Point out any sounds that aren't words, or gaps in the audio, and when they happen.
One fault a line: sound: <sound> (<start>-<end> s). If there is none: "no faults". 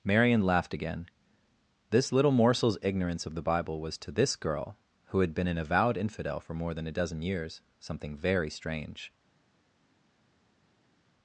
no faults